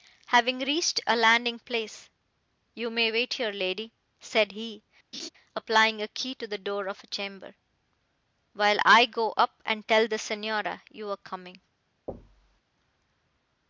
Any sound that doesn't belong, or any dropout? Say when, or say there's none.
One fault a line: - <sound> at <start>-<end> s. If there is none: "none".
- laugh at 5.1-5.3 s
- thud at 12.1-12.6 s